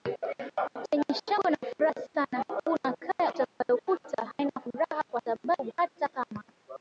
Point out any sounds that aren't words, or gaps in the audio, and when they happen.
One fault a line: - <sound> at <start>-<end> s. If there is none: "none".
- dropout at 3.5-3.6 s